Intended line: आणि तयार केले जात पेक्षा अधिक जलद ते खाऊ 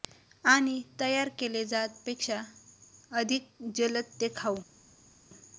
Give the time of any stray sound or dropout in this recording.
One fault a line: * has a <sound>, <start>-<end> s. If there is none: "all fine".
all fine